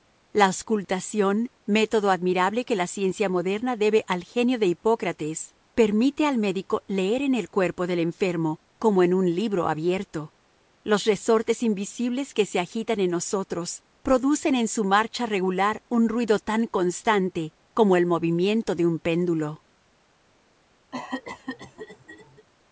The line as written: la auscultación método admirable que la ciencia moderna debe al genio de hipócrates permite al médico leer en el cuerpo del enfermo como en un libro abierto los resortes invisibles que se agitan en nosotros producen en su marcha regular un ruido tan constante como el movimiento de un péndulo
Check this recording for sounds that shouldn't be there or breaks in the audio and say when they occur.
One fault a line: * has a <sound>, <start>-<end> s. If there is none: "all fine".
* has a cough, 20.9-22.5 s